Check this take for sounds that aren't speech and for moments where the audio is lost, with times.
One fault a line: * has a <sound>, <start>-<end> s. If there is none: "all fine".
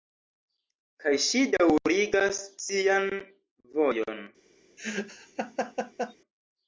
* has a laugh, 4.8-6.1 s